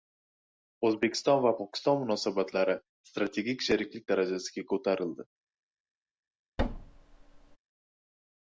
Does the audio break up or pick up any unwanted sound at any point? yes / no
yes